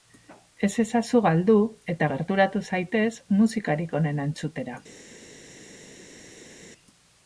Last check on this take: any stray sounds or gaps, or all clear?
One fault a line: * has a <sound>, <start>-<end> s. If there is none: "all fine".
all fine